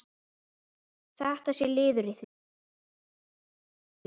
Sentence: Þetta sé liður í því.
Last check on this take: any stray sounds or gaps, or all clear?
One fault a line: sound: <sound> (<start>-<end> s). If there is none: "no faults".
no faults